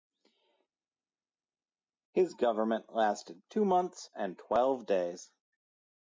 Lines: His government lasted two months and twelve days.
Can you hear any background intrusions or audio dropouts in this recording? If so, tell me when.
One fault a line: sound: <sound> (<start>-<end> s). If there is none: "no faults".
no faults